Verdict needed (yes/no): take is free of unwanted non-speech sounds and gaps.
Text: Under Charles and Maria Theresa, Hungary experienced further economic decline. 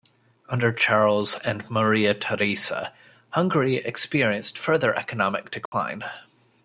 no